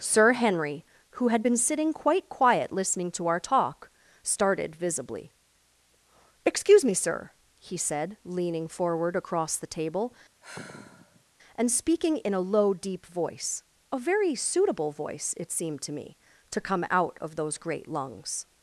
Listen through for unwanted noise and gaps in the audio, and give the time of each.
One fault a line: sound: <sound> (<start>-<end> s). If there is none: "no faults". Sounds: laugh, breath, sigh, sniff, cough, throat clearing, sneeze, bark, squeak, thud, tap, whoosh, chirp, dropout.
sound: sigh (10.4-11.2 s)